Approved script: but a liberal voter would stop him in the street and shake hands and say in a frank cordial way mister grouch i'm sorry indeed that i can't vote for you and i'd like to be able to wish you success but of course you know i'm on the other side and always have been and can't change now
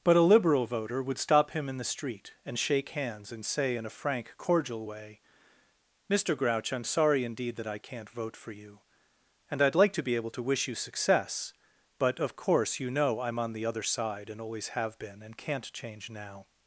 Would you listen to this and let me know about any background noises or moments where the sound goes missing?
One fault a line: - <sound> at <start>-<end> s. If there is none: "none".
none